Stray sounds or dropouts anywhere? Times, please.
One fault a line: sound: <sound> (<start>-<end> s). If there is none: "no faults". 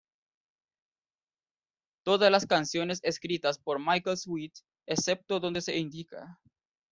no faults